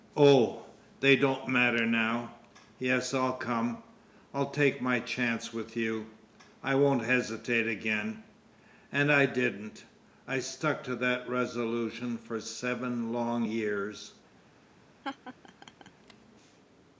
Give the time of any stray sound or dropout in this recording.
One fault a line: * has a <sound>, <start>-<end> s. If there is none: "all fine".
* has a laugh, 15.0-15.9 s